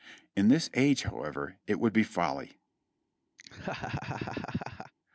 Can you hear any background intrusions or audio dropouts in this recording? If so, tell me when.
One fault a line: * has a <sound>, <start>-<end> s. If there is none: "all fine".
* has a laugh, 3.4-4.9 s